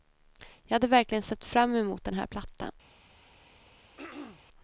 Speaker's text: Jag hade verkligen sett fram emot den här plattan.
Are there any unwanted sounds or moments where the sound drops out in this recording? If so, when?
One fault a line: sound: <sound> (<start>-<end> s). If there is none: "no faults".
sound: throat clearing (4.0-4.4 s)